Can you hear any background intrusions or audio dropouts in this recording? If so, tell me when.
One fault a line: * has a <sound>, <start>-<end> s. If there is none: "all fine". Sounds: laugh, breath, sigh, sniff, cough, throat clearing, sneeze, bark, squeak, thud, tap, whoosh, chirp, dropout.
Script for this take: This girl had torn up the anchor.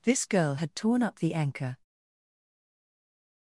all fine